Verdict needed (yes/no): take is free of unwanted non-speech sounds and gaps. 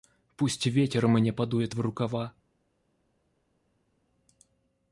yes